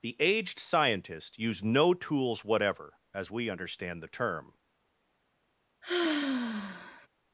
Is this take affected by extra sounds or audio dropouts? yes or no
yes